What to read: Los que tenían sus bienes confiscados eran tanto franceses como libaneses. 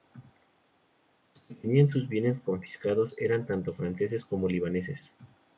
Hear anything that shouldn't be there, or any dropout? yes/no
no